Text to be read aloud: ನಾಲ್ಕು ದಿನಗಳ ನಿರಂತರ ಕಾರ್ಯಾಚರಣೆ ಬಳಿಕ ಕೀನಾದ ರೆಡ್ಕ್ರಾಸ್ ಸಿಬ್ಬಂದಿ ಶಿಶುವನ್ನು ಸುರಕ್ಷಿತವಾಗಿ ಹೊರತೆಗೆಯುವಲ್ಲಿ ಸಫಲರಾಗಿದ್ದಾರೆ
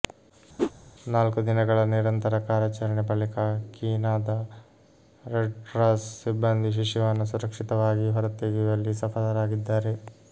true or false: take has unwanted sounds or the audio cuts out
true